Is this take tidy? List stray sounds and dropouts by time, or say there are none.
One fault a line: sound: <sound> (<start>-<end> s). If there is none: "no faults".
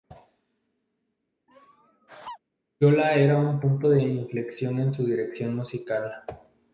sound: laugh (1.5-2.4 s)